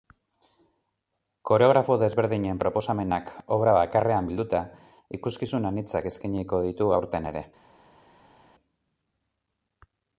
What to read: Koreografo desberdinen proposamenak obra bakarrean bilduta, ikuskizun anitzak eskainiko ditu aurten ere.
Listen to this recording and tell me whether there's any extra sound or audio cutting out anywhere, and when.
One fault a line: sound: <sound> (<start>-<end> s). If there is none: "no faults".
no faults